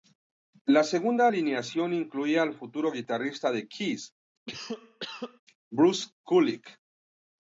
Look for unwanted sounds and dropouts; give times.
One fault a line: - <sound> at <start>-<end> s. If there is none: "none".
- cough at 4.5-5.4 s